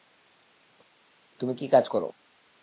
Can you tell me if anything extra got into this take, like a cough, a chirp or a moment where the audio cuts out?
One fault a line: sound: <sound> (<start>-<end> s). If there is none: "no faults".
no faults